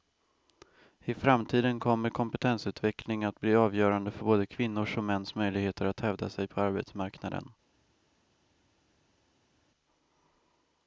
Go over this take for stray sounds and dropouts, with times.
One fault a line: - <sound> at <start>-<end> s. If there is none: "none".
none